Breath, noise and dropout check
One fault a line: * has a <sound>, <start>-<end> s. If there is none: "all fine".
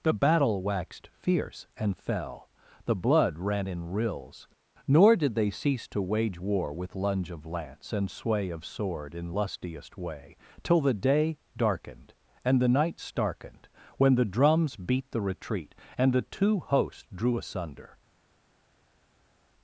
all fine